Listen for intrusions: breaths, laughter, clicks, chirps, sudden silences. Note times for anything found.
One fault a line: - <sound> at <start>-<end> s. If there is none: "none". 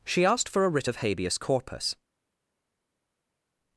none